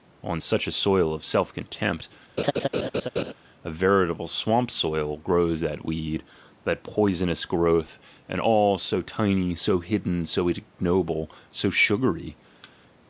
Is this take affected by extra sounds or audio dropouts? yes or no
yes